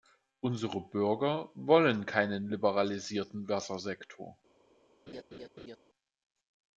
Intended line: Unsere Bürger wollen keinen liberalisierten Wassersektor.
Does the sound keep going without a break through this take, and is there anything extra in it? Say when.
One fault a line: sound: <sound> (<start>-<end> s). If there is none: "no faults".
sound: laugh (5.1-5.8 s)